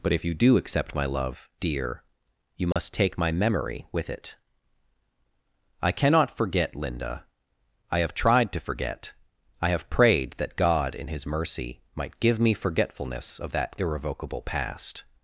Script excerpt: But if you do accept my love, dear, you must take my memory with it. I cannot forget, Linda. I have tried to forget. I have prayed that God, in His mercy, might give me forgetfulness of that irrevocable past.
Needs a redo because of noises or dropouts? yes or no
yes